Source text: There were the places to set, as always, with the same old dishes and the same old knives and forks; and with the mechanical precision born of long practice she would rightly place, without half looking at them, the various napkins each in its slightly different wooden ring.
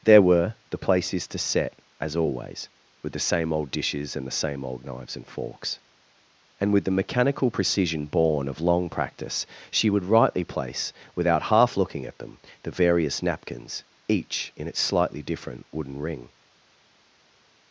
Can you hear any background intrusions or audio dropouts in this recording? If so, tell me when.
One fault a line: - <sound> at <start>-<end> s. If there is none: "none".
none